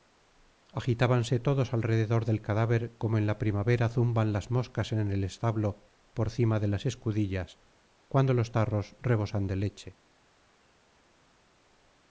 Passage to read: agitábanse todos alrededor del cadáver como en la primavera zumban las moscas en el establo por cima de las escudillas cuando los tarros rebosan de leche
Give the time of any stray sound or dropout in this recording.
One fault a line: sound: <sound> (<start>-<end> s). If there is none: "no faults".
no faults